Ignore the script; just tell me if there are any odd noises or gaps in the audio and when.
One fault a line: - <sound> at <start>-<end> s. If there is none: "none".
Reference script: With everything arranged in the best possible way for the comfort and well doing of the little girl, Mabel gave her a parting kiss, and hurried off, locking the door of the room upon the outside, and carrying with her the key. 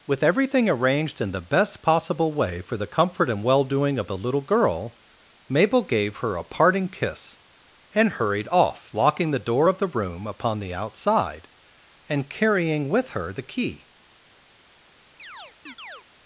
- chirp at 15.2-16.0 s